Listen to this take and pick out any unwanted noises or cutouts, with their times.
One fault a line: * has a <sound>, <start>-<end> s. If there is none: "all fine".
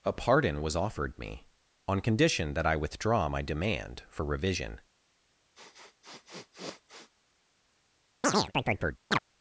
* has a sniff, 5.6-7.1 s
* has a chirp, 8.2-9.2 s